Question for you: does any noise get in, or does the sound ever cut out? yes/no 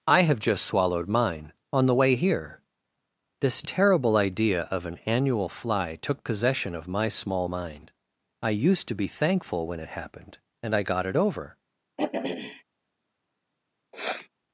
yes